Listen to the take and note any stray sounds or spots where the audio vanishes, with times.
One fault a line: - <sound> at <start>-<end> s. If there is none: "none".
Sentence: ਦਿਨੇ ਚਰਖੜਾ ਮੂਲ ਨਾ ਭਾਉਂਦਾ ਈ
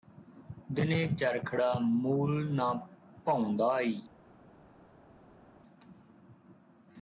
none